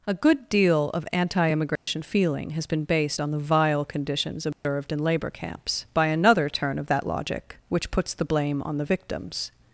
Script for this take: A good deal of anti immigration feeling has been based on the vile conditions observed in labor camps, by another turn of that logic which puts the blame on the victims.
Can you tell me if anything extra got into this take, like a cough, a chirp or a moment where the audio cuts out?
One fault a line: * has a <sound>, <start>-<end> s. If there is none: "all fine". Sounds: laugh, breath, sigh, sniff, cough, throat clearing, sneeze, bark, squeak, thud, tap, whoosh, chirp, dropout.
* has a dropout, 1.8-1.9 s
* has a dropout, 4.5-4.6 s